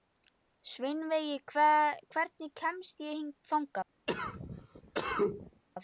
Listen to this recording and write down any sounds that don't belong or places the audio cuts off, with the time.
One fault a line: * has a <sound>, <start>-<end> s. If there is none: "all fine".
* has a cough, 4.1-5.6 s